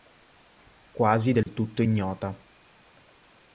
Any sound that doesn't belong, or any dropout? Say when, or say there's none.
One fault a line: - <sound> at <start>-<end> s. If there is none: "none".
- dropout at 1.4-1.5 s